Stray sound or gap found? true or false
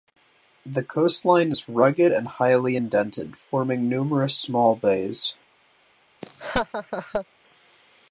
true